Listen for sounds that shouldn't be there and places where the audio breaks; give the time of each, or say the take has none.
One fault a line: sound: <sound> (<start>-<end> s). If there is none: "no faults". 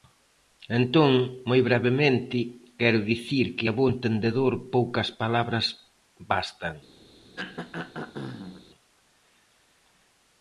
sound: throat clearing (7.4-8.7 s)